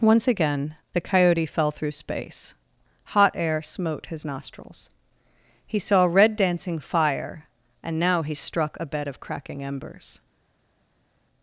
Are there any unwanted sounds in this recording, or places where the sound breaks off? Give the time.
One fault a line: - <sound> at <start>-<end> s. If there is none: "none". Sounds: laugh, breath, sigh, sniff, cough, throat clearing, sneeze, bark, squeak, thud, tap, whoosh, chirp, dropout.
none